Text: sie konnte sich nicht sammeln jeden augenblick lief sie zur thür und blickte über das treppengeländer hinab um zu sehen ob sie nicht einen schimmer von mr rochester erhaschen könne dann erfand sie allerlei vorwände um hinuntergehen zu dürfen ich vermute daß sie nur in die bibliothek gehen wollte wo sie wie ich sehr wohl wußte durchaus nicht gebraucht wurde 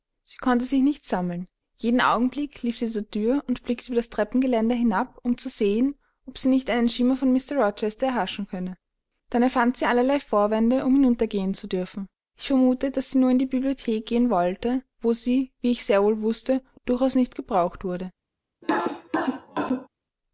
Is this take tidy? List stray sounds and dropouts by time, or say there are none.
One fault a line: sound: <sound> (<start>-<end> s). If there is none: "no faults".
sound: cough (18.6-19.9 s)